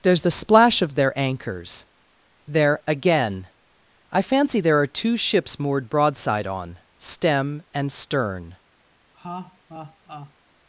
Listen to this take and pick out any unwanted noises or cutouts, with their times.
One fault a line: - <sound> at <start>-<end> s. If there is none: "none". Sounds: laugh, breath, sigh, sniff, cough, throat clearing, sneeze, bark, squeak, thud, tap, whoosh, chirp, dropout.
- laugh at 9.1-10.3 s